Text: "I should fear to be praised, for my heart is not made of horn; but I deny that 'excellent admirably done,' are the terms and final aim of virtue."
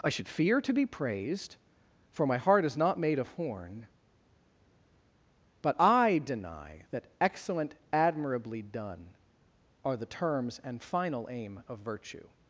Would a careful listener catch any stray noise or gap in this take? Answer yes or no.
no